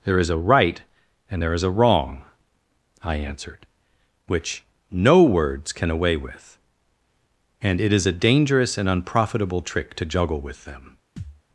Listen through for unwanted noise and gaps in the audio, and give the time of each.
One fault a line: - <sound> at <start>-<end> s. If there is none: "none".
- thud at 11.2-11.4 s